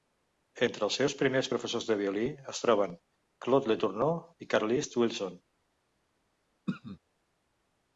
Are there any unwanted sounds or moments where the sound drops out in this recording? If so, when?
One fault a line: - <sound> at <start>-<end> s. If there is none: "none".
- throat clearing at 6.7-7.0 s